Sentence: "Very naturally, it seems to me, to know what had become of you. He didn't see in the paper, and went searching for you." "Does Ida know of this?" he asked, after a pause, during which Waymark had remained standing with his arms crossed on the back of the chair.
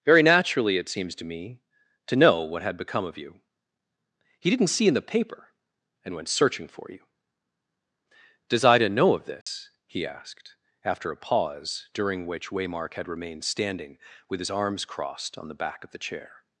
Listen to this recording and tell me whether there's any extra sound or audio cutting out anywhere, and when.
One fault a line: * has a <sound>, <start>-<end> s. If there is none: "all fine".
* has a dropout, 9.4-9.5 s